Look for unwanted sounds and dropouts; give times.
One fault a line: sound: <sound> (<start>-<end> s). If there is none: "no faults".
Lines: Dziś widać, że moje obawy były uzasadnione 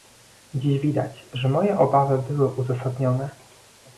no faults